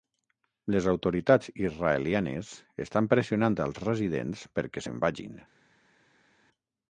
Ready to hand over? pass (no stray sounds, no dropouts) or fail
pass